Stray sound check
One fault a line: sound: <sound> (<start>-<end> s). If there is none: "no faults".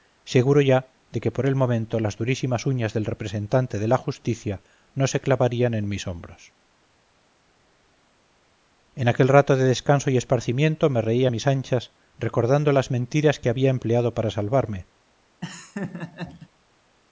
sound: laugh (15.4-16.5 s)